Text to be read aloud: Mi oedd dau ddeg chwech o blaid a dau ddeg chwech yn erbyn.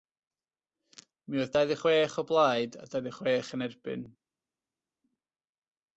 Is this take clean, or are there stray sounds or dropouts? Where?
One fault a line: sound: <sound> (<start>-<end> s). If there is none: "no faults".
no faults